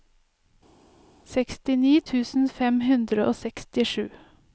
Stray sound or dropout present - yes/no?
no